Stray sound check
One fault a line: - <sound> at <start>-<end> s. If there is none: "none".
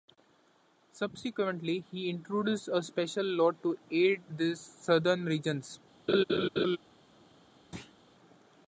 - laugh at 6.1-6.8 s
- thud at 7.7-8.0 s